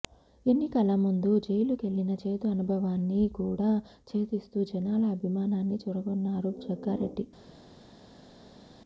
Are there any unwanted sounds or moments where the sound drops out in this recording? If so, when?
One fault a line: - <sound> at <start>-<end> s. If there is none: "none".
none